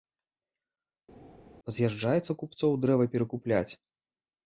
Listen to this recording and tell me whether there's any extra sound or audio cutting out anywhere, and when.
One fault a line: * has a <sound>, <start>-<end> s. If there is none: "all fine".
all fine